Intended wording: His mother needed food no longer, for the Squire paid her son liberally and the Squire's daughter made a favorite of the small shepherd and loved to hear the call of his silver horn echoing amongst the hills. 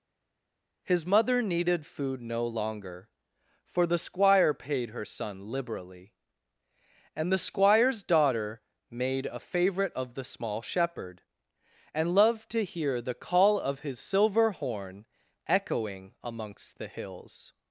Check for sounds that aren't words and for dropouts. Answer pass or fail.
pass